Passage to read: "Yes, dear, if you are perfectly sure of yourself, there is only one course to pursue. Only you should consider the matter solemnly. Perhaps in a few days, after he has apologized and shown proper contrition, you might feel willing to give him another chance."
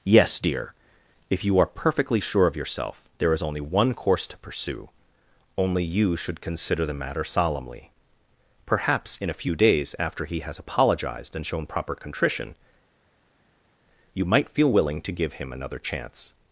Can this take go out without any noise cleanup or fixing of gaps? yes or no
yes